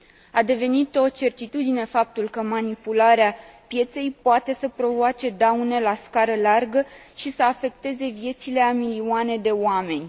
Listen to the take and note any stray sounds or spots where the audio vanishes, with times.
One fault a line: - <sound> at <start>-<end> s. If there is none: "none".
none